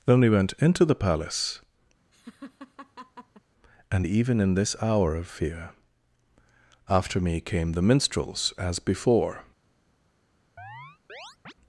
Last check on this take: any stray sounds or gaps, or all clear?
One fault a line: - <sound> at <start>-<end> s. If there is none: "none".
- laugh at 2.1-3.4 s
- chirp at 10.6-11.5 s